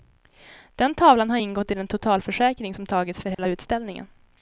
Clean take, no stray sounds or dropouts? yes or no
no